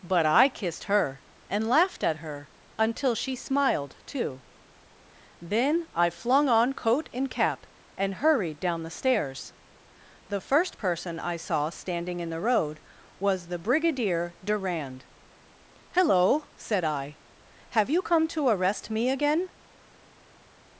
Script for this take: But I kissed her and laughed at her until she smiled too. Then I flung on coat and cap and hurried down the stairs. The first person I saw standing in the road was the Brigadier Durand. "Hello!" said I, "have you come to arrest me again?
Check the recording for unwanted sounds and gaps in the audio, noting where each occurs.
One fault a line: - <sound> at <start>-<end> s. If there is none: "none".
none